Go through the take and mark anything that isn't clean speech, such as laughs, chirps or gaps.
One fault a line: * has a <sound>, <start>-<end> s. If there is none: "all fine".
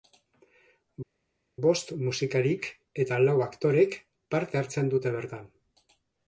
all fine